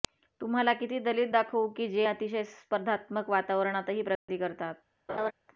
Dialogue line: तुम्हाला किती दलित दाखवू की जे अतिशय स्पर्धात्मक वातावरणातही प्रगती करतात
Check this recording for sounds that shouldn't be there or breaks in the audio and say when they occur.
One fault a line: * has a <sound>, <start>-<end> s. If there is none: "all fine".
* has a dropout, 4.2-4.3 s
* has a laugh, 5.1-5.3 s